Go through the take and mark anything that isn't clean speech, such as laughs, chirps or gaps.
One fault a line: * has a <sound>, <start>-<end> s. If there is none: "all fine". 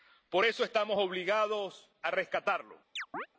* has a chirp, 3.0-3.3 s